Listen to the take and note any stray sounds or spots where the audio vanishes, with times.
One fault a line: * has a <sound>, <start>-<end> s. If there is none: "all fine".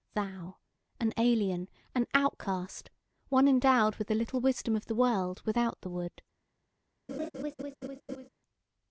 * has a laugh, 7.1-8.3 s